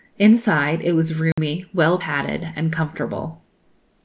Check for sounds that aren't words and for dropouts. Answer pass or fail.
fail